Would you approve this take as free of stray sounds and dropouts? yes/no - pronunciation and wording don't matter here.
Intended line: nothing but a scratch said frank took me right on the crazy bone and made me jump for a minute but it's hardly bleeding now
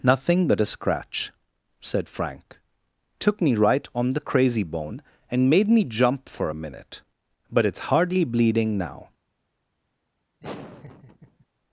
no